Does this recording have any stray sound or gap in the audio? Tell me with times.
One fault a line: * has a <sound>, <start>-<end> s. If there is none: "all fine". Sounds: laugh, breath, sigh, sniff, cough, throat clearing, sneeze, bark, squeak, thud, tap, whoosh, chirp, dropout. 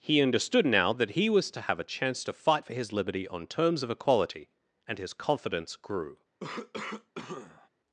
* has a cough, 6.4-7.7 s